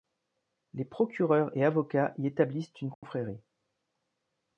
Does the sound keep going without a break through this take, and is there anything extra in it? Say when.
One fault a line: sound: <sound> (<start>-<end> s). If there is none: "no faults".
sound: dropout (2.9-3.0 s)